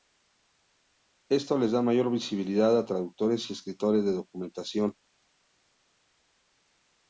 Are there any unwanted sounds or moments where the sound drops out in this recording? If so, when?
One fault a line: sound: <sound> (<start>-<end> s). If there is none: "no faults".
no faults